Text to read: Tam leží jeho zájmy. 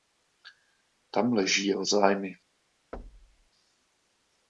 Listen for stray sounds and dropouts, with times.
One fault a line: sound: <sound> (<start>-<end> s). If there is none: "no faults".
sound: thud (2.9-3.5 s)